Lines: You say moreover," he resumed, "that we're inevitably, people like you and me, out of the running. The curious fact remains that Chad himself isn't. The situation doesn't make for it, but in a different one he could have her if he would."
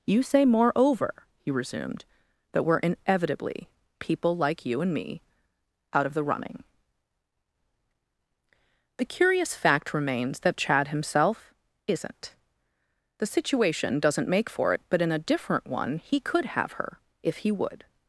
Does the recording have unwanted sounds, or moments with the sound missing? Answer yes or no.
no